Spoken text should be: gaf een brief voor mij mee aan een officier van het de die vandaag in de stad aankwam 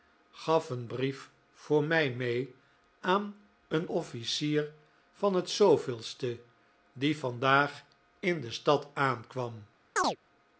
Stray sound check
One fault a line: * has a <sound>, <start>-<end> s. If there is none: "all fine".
* has a chirp, 10.0-10.2 s